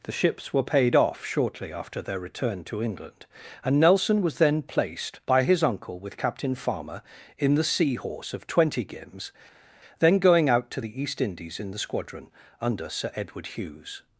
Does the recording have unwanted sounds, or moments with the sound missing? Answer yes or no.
no